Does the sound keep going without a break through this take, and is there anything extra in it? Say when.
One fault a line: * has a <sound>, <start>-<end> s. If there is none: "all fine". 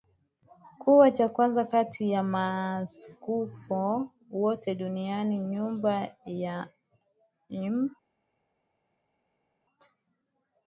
all fine